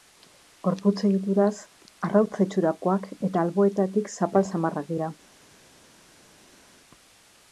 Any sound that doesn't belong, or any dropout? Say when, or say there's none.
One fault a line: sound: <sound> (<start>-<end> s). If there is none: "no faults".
no faults